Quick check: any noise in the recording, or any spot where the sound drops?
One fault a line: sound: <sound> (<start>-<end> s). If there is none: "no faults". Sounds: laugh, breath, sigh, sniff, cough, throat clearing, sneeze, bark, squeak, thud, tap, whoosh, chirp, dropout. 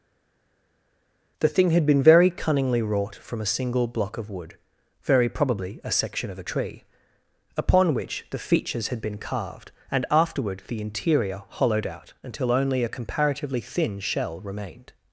no faults